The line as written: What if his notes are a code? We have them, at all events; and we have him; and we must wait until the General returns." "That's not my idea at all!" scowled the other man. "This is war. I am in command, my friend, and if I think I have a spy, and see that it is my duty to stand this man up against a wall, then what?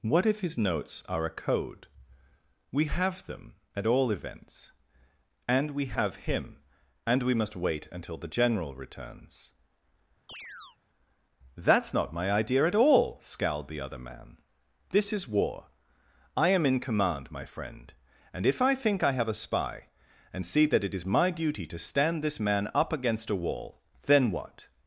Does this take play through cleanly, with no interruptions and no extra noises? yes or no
no